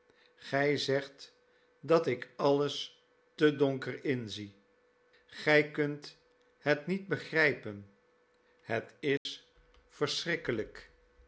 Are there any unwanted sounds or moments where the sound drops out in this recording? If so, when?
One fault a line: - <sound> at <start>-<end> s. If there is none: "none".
- dropout at 9.2-9.3 s